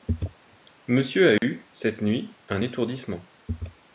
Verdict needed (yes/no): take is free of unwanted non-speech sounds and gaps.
no